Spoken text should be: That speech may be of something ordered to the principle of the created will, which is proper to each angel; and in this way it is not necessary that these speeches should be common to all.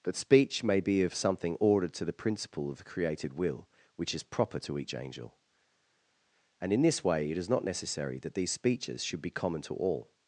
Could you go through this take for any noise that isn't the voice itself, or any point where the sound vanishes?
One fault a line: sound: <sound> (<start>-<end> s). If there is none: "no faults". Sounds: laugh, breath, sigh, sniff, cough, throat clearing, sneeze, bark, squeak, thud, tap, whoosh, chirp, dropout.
no faults